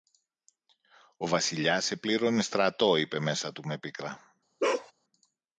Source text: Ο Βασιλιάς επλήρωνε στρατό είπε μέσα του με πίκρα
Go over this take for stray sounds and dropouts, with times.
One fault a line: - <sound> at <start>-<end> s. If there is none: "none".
- bark at 4.6-4.9 s